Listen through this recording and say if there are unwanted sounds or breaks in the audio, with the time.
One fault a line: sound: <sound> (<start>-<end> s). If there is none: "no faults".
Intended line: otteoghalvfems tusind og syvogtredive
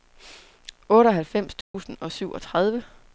sound: dropout (1.6-1.7 s)